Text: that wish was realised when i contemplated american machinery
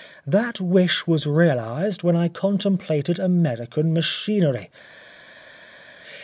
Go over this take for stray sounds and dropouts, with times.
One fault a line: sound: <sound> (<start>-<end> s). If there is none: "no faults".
no faults